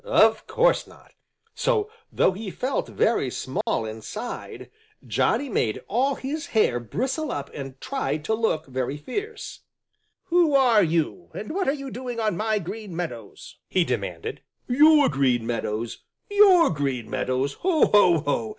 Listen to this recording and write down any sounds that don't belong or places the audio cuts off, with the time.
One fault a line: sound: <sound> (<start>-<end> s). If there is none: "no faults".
sound: dropout (3.6-3.7 s)